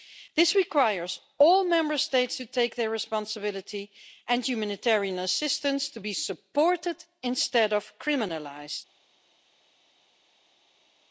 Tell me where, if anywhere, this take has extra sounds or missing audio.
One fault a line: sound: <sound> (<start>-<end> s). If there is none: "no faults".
no faults